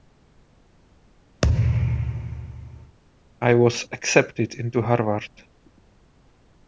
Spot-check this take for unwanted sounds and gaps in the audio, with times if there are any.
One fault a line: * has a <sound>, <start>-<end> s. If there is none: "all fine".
* has a thud, 1.4-3.0 s